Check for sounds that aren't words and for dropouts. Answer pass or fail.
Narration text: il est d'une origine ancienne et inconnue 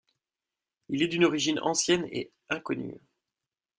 pass